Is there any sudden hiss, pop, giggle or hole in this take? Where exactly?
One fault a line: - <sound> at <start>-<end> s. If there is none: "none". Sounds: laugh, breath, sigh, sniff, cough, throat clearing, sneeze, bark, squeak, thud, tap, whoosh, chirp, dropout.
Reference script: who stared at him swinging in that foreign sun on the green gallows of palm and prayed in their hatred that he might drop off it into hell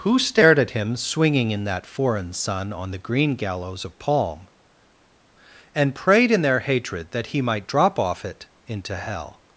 none